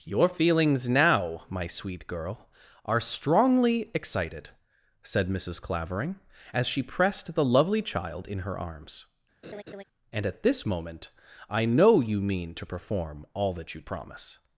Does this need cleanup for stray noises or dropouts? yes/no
yes